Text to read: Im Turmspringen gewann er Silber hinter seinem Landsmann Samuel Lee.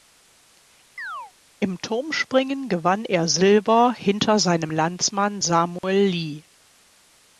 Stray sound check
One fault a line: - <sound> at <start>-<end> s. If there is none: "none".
- chirp at 1.0-1.3 s
- dropout at 5.8-5.8 s